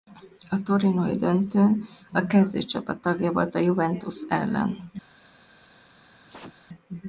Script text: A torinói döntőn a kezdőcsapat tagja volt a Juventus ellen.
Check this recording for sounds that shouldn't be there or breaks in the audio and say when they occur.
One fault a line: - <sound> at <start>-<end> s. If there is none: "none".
- sneeze at 6.3-6.6 s